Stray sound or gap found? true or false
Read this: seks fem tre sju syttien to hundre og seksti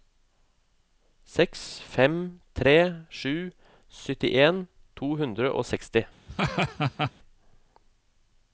true